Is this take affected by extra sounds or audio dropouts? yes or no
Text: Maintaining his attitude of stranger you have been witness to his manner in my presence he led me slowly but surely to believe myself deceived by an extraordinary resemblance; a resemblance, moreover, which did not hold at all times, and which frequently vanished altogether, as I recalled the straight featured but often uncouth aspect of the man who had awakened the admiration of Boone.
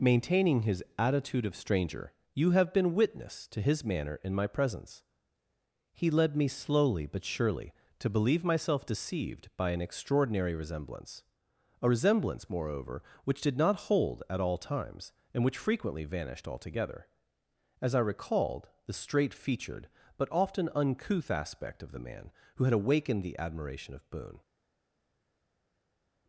no